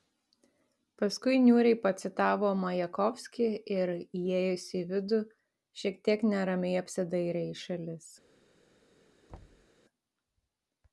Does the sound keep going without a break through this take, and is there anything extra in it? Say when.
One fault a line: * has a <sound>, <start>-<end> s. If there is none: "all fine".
* has a thud, 9.3-9.7 s